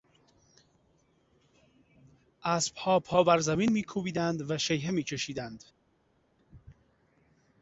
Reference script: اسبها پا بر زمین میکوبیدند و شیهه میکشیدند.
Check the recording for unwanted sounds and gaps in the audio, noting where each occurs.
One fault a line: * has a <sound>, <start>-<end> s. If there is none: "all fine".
all fine